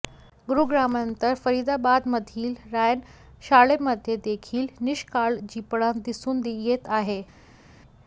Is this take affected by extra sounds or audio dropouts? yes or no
no